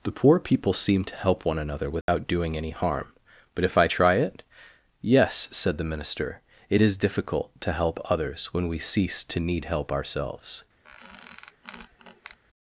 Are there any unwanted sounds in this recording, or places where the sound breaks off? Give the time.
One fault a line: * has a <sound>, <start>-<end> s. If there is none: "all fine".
* has a dropout, 2.0-2.1 s
* has a squeak, 10.8-12.4 s